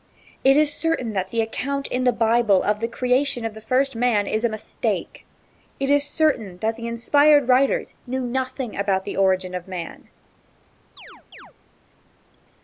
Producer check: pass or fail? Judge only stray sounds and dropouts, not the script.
fail